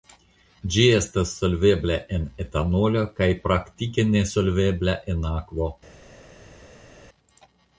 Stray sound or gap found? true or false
false